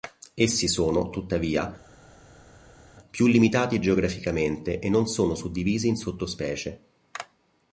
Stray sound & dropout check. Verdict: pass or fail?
pass